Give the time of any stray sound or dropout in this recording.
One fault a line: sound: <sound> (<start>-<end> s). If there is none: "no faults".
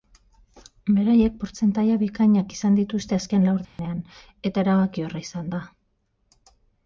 sound: dropout (3.6-3.8 s)